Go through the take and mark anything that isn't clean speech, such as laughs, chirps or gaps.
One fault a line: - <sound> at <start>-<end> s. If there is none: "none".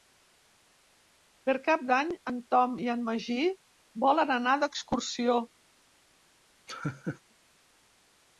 - laugh at 6.7-7.2 s